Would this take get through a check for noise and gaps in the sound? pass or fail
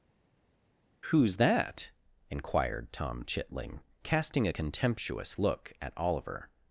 pass